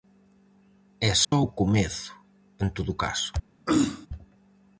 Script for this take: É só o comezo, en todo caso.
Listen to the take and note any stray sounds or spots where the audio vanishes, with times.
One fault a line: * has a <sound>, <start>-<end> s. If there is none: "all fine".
* has a dropout, 1.2-1.3 s
* has a throat clearing, 3.7-4.1 s